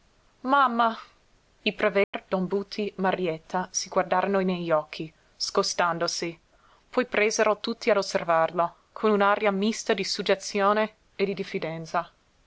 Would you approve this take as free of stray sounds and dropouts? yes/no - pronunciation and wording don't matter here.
no